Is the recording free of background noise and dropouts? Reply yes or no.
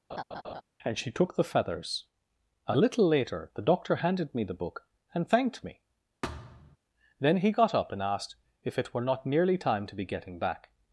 no